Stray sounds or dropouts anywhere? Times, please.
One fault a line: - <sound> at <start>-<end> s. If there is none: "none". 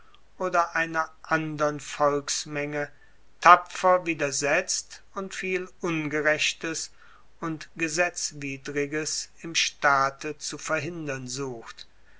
none